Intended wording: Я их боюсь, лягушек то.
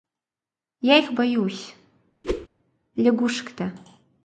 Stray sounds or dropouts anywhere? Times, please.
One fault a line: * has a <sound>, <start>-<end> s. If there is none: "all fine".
* has a whoosh, 2.2-2.5 s